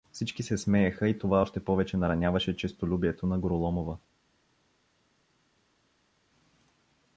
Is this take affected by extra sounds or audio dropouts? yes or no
no